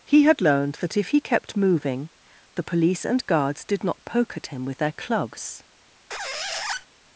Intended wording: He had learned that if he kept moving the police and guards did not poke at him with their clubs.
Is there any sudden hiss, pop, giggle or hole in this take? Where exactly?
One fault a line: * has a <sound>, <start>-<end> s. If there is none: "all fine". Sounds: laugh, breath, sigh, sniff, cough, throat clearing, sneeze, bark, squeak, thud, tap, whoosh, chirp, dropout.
* has a squeak, 6.1-6.9 s